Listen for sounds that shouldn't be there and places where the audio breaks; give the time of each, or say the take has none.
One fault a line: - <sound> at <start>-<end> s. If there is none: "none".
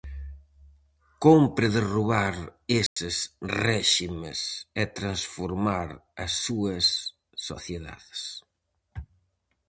- dropout at 2.9-3.0 s